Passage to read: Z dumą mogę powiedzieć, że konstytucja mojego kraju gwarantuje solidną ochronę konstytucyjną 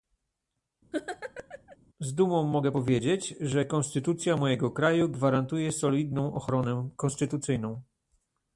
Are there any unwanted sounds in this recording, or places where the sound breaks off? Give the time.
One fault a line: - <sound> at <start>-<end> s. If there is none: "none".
- laugh at 0.9-1.8 s